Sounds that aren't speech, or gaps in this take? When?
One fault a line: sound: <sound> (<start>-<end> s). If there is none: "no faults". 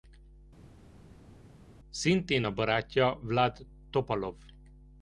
no faults